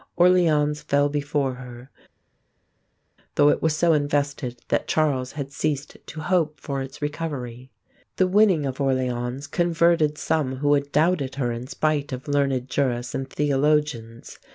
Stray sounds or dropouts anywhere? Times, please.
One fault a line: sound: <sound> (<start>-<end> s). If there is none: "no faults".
no faults